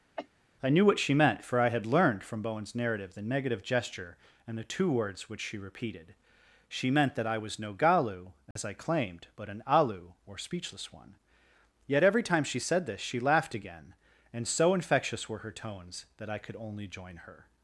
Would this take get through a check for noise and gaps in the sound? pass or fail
fail